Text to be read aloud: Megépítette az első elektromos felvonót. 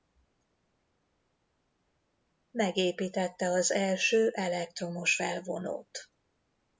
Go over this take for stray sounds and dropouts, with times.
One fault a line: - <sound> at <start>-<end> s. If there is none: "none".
none